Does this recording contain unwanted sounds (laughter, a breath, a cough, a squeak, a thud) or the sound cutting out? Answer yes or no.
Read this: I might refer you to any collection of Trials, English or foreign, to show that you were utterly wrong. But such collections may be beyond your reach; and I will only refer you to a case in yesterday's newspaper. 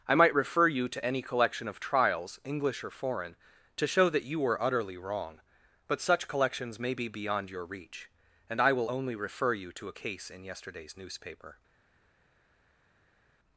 no